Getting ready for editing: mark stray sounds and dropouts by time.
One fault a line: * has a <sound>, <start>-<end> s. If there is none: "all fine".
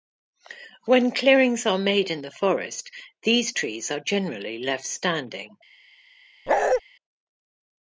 * has a bark, 6.5-6.8 s